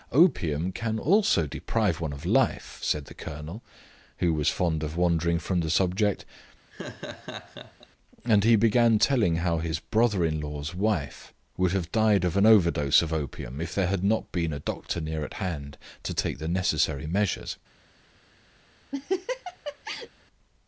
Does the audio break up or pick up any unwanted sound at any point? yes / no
yes